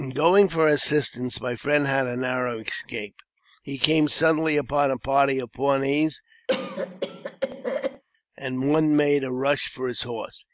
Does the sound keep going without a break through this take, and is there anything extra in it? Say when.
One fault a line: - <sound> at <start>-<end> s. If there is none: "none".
- cough at 6.5-8.0 s